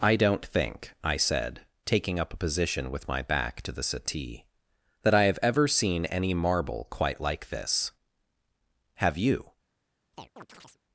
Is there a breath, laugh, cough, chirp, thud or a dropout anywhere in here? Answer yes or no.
yes